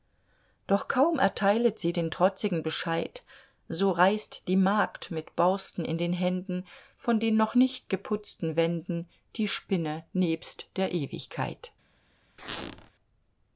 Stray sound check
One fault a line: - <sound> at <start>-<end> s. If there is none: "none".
- squeak at 12.4-12.9 s